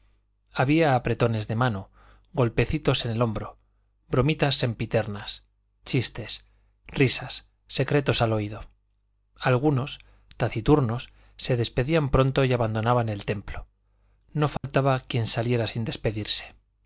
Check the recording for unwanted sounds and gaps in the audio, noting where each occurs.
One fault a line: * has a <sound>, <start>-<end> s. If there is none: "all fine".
* has a dropout, 14.6-14.6 s